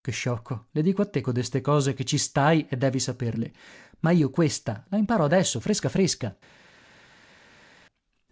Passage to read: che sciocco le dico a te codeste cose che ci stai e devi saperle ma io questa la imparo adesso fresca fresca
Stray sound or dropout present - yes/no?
no